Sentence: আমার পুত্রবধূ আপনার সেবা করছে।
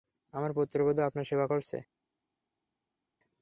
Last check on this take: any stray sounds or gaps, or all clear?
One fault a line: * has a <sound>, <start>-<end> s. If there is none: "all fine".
all fine